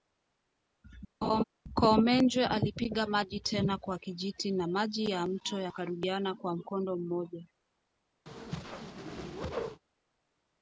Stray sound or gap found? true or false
true